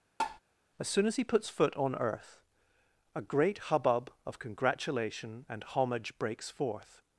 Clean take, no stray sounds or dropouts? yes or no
no